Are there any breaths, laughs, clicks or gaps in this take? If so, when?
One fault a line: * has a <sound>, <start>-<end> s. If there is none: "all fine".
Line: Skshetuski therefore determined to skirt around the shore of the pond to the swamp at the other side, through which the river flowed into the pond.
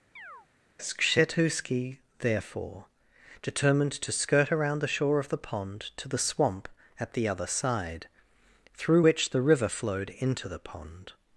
* has a chirp, 0.2-0.5 s